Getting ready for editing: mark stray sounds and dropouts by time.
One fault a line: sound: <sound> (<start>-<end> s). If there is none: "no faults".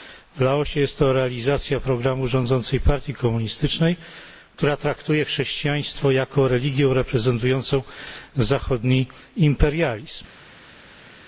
no faults